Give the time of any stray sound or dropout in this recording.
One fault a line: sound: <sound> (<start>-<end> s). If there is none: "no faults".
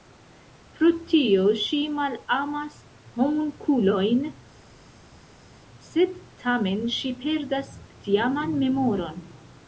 no faults